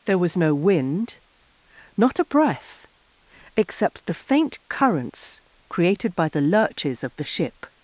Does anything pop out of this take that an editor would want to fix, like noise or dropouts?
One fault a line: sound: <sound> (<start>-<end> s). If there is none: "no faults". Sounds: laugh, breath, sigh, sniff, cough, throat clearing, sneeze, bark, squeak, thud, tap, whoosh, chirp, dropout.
no faults